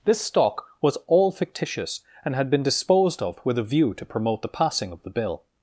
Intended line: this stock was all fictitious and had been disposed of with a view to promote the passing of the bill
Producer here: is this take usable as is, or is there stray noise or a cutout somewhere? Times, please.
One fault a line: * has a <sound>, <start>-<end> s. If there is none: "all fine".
all fine